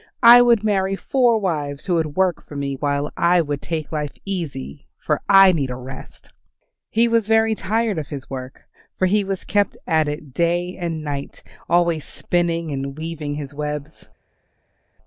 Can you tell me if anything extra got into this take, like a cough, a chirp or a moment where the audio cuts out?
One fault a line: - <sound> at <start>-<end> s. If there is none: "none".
none